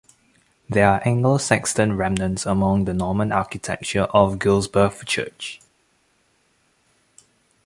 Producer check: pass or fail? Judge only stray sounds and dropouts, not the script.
pass